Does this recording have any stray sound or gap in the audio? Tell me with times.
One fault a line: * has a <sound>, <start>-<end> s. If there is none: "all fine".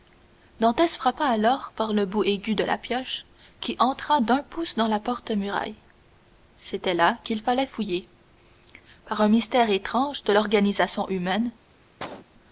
* has a cough, 12.0-12.3 s